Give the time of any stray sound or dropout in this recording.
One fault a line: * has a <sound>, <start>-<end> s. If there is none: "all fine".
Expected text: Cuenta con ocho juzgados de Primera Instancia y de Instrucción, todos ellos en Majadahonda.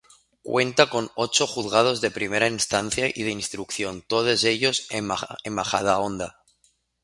all fine